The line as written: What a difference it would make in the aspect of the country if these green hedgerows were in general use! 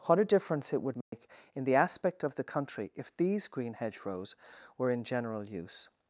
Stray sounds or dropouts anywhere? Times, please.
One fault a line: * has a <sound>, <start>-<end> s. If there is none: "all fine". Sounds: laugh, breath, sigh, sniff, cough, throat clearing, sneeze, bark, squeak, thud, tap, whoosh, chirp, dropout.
* has a dropout, 1.0-1.1 s